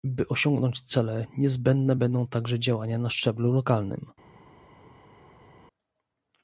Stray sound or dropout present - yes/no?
no